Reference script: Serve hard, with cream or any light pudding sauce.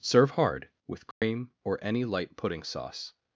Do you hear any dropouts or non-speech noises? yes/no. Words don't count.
yes